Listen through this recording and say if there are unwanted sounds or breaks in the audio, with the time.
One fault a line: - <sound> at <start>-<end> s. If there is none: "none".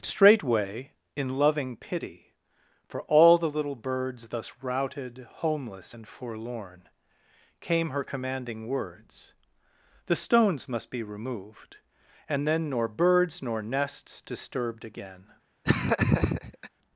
- laugh at 15.6-16.7 s